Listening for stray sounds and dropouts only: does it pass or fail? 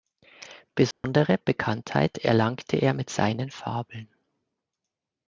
fail